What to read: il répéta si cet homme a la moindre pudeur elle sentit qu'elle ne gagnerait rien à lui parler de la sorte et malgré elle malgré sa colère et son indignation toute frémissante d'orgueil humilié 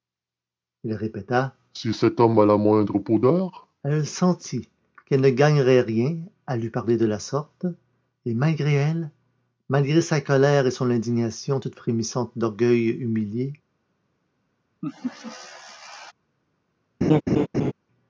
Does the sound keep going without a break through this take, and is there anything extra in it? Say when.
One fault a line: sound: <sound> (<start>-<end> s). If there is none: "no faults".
sound: laugh (14.8-16.1 s)
sound: laugh (17.0-17.7 s)